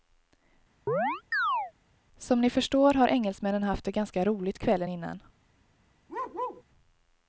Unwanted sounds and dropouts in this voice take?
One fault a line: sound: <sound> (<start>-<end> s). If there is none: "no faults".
sound: chirp (0.9-1.7 s)
sound: bark (6.1-6.6 s)